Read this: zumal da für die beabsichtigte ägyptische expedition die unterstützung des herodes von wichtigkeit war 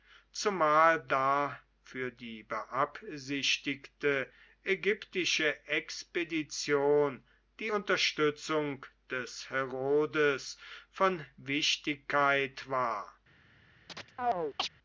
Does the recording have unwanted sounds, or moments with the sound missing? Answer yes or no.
yes